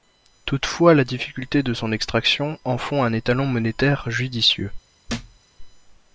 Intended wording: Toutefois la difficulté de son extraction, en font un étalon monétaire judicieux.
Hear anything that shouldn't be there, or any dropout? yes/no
yes